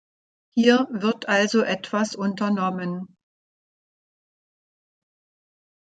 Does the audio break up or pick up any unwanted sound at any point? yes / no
no